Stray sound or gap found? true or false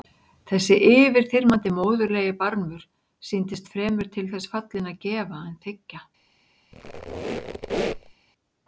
true